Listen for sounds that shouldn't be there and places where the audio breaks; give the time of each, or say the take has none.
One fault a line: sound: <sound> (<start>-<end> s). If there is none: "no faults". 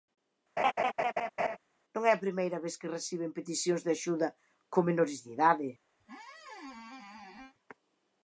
sound: laugh (0.6-1.6 s)
sound: squeak (6.0-7.5 s)